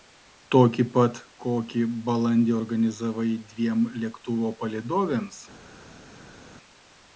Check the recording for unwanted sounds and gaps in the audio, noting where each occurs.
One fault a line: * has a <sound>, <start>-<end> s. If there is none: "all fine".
all fine